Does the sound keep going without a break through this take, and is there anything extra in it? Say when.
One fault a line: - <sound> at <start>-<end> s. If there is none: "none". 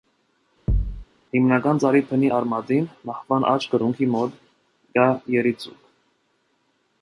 - thud at 0.7-1.0 s